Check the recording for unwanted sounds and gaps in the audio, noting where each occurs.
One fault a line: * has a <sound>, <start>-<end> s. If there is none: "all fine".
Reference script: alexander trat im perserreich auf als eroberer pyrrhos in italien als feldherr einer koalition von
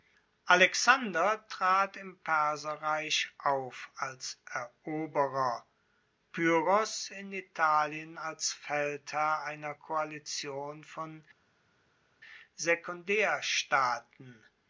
all fine